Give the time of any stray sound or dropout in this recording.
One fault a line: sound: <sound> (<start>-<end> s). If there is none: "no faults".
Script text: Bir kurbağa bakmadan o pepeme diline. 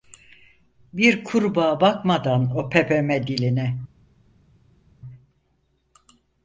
no faults